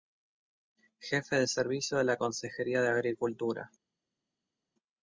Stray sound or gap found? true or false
false